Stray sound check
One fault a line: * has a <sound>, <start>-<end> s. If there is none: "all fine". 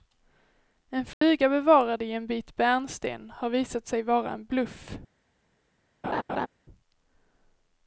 * has a dropout, 1.1-1.2 s
* has a laugh, 6.0-6.5 s